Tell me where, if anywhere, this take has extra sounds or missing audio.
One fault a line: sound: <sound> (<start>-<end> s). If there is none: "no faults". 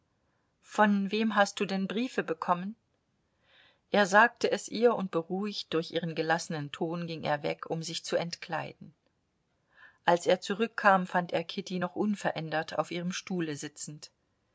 no faults